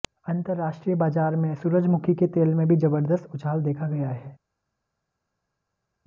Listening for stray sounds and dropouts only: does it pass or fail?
pass